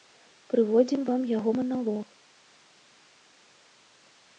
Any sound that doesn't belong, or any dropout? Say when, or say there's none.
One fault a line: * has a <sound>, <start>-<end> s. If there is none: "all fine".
all fine